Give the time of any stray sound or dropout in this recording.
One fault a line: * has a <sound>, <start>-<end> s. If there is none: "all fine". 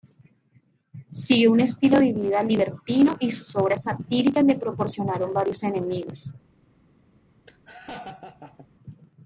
* has a laugh, 7.5-8.7 s